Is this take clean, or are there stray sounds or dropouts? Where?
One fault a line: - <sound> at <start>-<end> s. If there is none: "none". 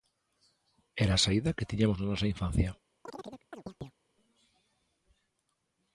- chirp at 3.1-4.0 s